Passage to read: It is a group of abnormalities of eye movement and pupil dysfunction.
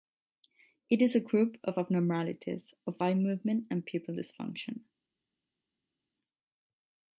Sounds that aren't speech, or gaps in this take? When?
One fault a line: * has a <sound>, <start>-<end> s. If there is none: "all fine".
all fine